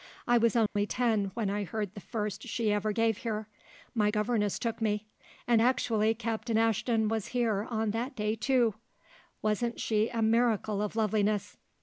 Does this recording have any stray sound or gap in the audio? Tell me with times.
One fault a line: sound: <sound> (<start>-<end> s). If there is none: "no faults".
sound: dropout (0.7-0.8 s)